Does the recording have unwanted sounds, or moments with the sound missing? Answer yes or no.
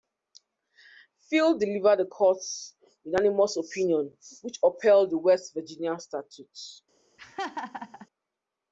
yes